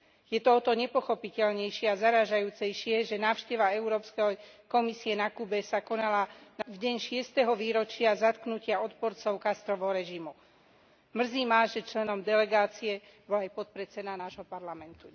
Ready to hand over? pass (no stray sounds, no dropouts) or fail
pass